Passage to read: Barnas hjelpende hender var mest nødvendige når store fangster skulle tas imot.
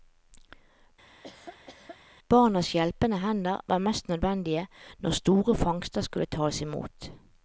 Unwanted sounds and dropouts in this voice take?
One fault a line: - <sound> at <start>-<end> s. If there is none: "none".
- laugh at 1.1-2.0 s